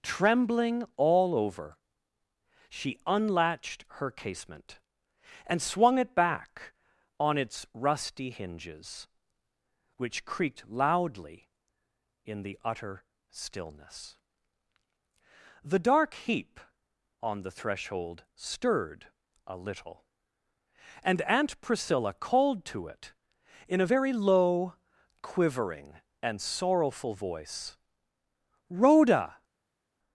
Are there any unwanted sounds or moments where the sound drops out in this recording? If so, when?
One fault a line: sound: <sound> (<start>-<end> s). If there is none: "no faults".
no faults